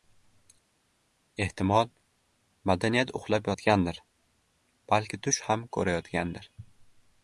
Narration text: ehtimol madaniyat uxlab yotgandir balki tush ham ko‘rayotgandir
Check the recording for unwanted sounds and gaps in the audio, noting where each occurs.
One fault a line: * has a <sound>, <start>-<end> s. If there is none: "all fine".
all fine